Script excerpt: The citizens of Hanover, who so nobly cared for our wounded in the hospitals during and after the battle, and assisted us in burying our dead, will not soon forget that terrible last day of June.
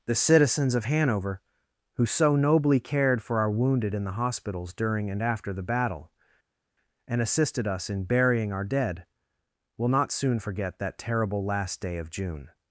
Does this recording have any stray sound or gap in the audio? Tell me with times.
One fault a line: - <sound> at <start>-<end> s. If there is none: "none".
none